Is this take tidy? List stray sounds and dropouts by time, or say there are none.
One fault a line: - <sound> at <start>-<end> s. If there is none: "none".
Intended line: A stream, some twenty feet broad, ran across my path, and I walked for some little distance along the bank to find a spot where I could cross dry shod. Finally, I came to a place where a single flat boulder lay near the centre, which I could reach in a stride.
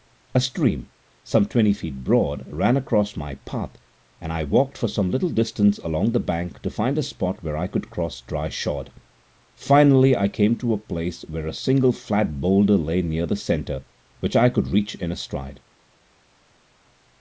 none